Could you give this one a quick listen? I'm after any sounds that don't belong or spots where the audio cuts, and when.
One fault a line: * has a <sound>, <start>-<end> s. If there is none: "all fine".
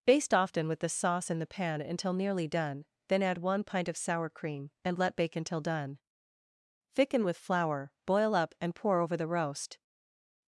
all fine